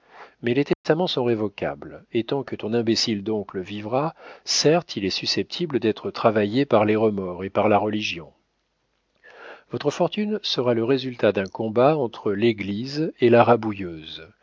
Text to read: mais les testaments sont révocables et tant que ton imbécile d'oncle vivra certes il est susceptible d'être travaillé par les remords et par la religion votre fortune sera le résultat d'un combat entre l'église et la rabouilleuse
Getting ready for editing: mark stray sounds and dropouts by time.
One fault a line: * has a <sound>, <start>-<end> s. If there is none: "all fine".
* has a dropout, 0.7-0.8 s